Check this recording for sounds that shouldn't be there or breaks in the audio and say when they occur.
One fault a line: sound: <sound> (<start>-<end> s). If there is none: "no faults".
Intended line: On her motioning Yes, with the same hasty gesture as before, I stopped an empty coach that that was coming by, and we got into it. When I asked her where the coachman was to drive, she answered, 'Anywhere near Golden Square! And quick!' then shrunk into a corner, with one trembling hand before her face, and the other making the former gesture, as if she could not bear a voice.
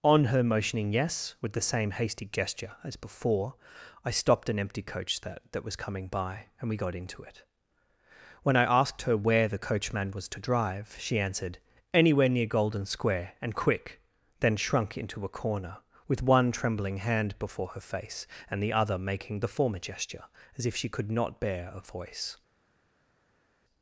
no faults